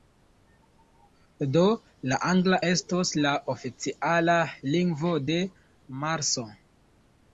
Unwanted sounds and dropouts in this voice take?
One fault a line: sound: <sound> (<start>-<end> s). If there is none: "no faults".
no faults